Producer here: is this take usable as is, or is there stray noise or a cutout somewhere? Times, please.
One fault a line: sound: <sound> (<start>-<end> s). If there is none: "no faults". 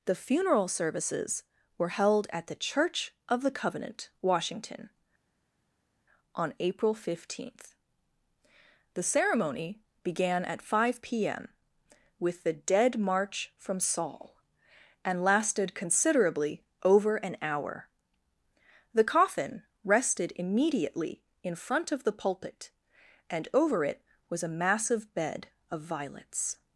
no faults